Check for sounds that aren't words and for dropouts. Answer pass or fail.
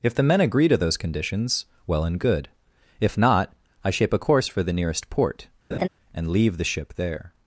fail